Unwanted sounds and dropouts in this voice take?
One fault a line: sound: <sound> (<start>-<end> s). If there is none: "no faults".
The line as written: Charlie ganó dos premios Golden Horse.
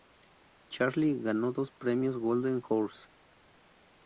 no faults